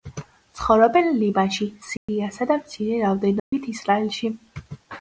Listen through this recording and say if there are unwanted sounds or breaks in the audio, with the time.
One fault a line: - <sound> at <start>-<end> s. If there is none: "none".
- dropout at 2.0-2.1 s
- dropout at 3.4-3.5 s